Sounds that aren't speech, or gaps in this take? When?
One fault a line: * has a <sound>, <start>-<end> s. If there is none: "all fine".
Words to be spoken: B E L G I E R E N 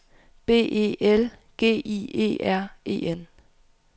all fine